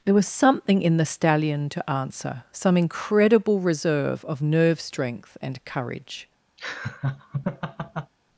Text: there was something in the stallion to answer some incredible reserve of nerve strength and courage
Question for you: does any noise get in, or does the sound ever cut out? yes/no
yes